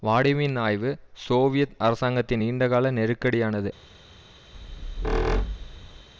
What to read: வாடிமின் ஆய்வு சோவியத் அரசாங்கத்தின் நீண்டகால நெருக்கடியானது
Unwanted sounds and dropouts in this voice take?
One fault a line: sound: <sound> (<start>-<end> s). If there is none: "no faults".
sound: squeak (4.5-6.1 s)